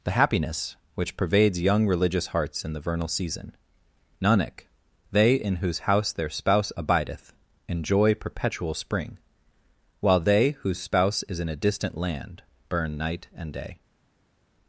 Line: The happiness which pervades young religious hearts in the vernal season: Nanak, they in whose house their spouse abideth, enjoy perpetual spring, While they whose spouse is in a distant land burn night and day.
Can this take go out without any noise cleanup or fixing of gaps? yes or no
yes